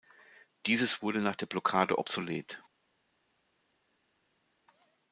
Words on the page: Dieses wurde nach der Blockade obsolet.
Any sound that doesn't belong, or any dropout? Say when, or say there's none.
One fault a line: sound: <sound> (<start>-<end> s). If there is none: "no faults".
no faults